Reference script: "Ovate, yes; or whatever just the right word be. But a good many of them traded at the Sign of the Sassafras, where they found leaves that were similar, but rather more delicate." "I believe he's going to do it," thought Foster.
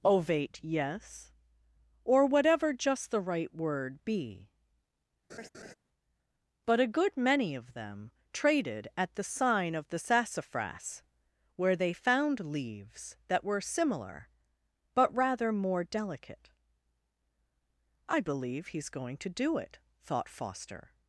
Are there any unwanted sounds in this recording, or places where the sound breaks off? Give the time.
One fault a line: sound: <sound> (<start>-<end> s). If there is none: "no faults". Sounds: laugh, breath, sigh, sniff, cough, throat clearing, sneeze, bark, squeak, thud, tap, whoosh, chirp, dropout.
sound: laugh (5.3-5.7 s)